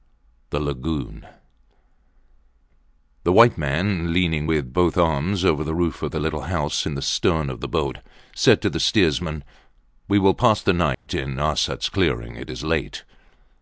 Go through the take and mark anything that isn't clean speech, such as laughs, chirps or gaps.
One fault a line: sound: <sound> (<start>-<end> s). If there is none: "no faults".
sound: dropout (10.9-11.1 s)